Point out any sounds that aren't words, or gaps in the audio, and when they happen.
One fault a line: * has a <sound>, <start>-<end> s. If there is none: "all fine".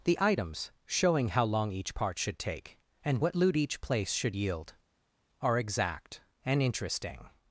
all fine